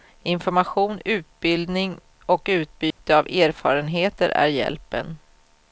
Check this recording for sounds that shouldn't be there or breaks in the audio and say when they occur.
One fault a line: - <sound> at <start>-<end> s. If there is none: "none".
- dropout at 2.9-3.0 s